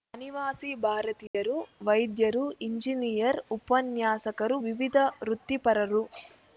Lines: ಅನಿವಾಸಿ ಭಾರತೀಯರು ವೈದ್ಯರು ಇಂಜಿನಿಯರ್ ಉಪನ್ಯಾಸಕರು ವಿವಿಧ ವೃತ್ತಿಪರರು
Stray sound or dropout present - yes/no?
yes